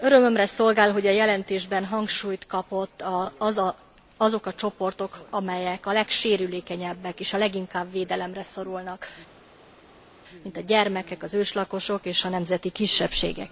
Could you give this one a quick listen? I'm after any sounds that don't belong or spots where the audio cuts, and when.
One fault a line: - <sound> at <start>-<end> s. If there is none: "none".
none